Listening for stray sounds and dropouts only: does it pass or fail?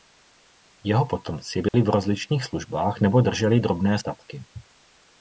fail